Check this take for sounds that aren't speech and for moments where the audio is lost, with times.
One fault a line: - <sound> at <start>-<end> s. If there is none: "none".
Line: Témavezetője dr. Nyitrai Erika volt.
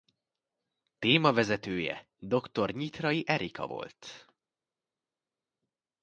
none